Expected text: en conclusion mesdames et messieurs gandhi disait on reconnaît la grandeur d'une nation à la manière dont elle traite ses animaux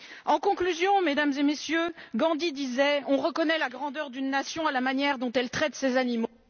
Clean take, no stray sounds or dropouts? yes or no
yes